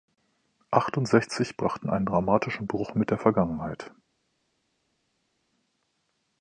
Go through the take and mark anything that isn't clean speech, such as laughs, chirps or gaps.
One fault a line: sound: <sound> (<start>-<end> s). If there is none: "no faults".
no faults